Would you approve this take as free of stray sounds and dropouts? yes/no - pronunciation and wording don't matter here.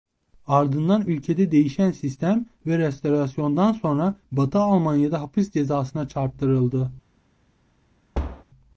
no